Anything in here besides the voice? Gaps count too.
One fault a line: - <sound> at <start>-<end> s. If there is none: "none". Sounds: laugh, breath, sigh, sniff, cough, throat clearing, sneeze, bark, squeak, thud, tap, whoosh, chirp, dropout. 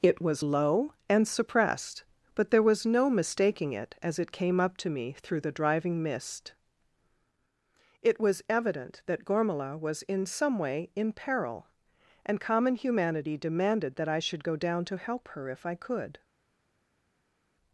none